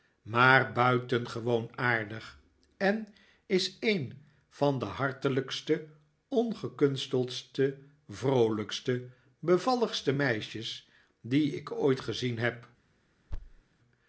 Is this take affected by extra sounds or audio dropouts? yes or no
yes